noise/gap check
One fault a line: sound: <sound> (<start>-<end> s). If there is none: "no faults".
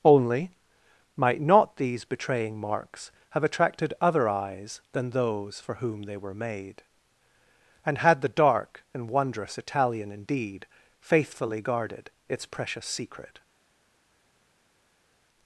no faults